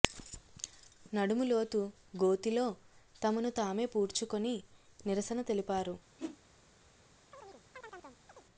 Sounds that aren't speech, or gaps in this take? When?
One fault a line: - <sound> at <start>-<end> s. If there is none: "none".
- whoosh at 6.2-6.4 s
- chirp at 7.3-8.5 s